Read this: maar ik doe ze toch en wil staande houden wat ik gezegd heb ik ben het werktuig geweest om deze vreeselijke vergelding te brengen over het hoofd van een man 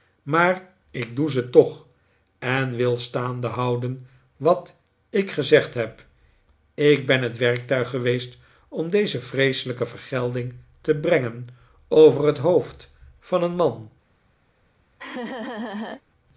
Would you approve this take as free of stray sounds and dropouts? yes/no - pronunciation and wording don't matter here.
no